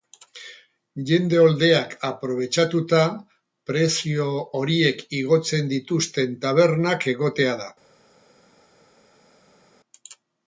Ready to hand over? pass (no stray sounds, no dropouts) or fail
pass